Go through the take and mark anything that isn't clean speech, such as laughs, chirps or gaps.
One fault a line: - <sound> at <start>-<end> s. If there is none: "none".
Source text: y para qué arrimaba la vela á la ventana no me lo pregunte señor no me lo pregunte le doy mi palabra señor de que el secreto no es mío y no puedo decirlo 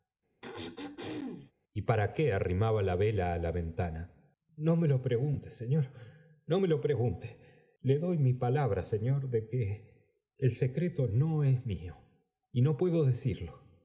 - throat clearing at 0.4-1.5 s